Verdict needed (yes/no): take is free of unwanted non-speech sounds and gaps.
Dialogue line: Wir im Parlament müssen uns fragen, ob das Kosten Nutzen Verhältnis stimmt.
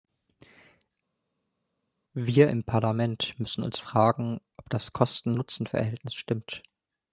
yes